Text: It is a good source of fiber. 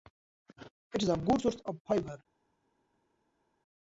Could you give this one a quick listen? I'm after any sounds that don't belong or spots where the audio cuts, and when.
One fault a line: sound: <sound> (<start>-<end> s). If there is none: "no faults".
no faults